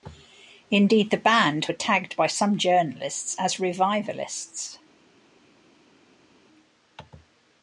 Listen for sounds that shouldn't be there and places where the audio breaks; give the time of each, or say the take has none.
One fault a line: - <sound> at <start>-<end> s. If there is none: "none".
none